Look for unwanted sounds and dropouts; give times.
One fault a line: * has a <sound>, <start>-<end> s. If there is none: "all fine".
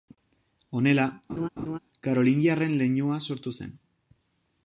* has a laugh, 1.3-1.8 s